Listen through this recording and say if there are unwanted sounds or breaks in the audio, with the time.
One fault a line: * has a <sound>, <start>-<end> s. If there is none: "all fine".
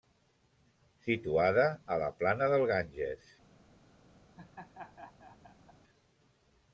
* has a laugh, 4.4-5.8 s